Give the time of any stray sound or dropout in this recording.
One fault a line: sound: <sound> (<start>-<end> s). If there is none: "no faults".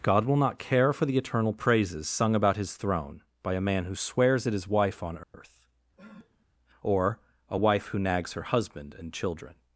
sound: dropout (5.2-5.3 s)
sound: sniff (6.0-6.5 s)